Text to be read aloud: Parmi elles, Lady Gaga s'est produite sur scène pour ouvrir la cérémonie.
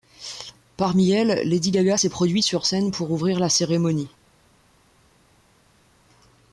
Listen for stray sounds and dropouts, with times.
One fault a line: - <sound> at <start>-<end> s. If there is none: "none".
none